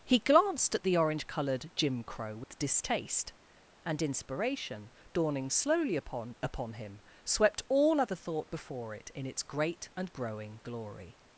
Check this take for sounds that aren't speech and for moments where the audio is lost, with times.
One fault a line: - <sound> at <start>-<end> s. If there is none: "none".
- dropout at 2.4-2.5 s